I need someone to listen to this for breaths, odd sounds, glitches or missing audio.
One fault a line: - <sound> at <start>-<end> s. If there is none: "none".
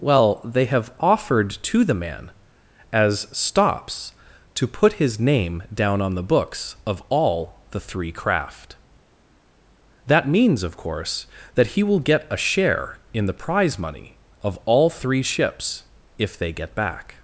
none